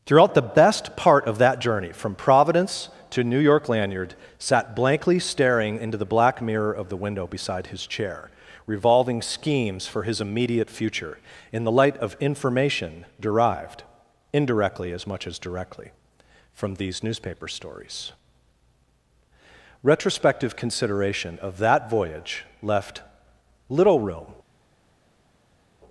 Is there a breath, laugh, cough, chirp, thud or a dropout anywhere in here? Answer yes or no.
no